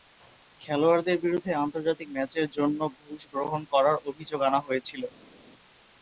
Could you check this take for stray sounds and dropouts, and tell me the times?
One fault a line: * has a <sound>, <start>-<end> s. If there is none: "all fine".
all fine